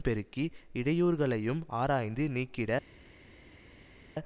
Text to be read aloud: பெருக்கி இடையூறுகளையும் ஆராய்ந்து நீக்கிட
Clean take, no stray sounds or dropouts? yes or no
yes